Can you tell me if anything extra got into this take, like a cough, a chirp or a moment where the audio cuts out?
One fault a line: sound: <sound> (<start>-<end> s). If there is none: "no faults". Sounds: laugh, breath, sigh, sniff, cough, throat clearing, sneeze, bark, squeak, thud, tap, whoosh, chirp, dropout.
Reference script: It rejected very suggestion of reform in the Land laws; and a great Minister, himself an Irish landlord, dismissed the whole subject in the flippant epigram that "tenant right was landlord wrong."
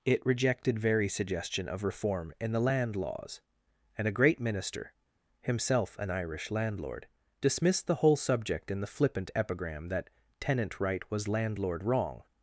no faults